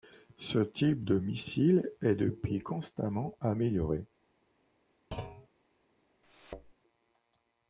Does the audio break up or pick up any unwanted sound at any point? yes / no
yes